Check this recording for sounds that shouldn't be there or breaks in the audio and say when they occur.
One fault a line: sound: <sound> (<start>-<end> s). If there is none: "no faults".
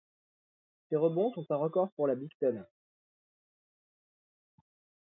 no faults